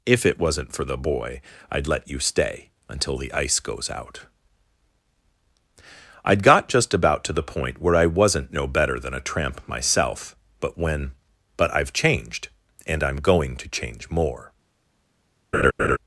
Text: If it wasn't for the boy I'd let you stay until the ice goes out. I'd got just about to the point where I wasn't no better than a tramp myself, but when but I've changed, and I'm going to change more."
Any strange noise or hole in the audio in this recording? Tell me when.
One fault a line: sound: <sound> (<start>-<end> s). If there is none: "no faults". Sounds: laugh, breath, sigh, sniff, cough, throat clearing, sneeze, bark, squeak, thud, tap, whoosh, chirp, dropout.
sound: laugh (15.5-16.0 s)